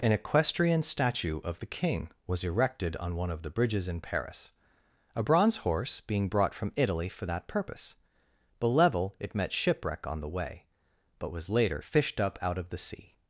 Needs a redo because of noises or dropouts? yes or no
no